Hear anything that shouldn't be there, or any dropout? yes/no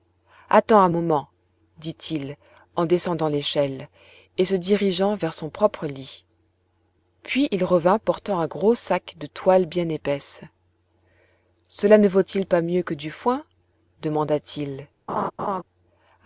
yes